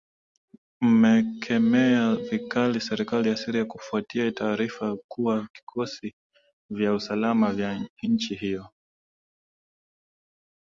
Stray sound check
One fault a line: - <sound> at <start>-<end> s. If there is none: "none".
none